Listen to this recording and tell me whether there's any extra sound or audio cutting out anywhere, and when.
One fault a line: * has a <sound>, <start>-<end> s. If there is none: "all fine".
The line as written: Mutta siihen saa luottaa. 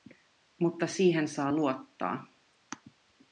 all fine